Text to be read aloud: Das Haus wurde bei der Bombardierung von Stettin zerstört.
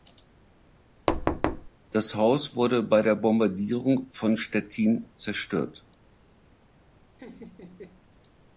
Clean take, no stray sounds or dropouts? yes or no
no